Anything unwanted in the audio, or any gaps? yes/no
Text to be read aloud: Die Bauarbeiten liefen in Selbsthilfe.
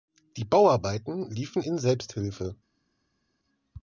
no